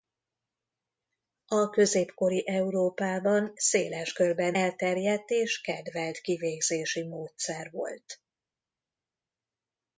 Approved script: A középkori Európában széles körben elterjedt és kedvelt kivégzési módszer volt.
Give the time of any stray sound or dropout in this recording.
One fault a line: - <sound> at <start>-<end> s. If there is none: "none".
none